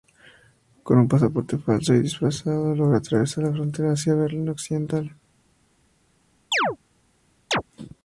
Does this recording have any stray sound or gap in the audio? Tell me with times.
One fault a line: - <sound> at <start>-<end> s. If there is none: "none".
- chirp at 6.5-6.8 s
- chirp at 7.5-7.6 s